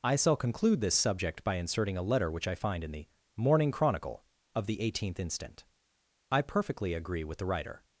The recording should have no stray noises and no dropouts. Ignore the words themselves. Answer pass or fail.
pass